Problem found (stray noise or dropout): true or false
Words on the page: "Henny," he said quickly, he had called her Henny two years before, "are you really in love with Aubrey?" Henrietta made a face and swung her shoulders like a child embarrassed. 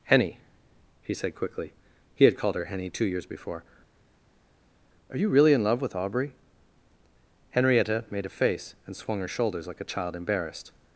false